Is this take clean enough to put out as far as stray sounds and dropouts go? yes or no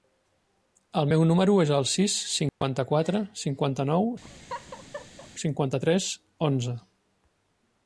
no